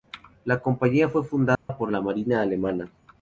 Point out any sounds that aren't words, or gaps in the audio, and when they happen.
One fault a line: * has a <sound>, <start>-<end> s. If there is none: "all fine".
* has a dropout, 1.5-1.7 s